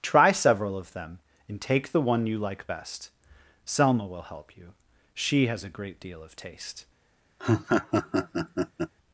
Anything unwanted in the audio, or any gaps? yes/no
yes